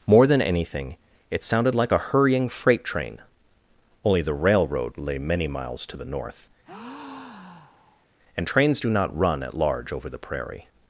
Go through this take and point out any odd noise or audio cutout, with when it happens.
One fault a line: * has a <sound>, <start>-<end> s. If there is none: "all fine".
* has a breath, 6.6-8.1 s